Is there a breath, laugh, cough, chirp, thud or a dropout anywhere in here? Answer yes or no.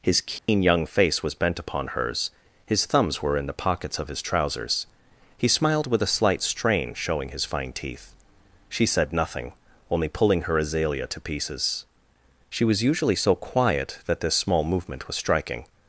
yes